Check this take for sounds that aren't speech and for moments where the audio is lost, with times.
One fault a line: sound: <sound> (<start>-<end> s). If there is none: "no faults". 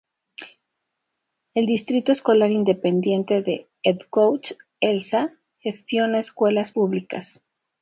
no faults